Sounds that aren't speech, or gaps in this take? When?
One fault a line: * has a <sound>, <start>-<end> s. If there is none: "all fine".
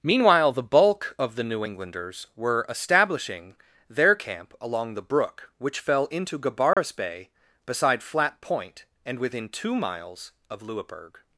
* has a dropout, 6.7-6.8 s